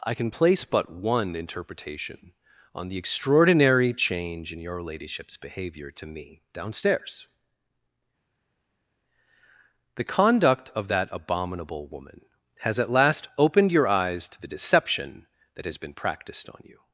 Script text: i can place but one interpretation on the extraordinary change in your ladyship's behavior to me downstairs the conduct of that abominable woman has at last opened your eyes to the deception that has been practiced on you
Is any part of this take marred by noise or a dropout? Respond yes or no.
no